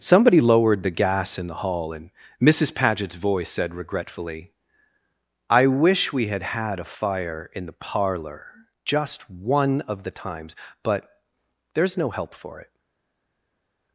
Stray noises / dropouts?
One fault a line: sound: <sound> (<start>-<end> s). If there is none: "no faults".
no faults